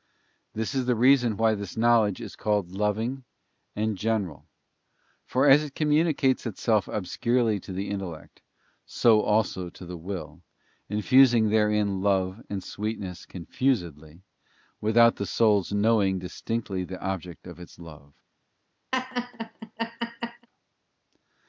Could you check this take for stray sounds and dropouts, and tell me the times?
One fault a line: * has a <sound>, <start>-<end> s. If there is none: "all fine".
* has a laugh, 18.9-20.5 s